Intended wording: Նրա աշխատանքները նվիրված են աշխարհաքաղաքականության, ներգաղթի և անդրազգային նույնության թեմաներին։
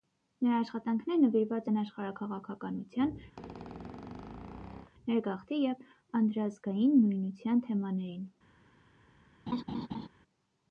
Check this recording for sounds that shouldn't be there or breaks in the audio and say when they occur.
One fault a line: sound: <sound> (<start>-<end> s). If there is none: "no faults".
sound: squeak (3.4-4.9 s)
sound: laugh (9.5-10.1 s)